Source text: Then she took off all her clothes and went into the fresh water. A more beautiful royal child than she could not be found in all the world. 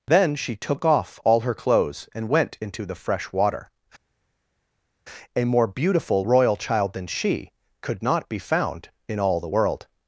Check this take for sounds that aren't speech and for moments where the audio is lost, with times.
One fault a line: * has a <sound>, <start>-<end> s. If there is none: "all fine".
all fine